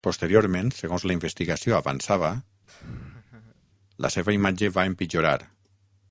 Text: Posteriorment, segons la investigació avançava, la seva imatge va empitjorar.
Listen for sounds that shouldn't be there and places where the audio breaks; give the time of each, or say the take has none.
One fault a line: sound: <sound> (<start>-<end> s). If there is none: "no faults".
sound: laugh (2.7-3.6 s)